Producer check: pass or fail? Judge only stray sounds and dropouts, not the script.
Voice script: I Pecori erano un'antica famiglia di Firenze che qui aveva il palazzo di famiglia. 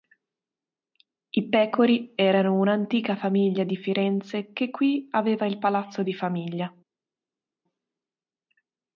pass